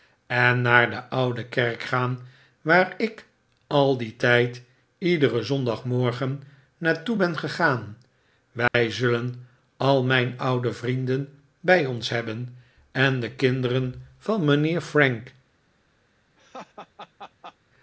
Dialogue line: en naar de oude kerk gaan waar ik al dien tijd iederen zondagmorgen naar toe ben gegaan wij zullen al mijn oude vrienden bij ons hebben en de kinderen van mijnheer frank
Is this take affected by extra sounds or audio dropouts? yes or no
yes